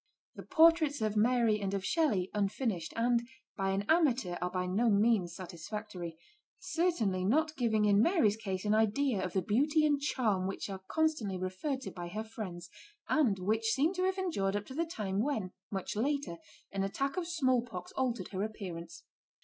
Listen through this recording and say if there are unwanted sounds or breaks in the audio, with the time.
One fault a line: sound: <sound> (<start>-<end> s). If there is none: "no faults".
no faults